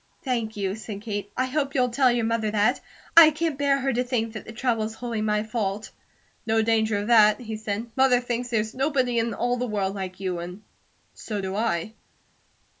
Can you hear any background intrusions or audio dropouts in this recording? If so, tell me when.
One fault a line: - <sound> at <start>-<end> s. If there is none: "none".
none